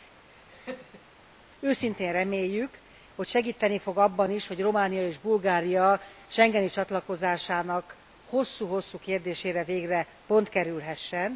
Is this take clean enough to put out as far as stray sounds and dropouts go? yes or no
no